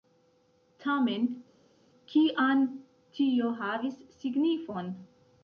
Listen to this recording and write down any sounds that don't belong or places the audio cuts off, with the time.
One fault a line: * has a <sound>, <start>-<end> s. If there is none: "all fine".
all fine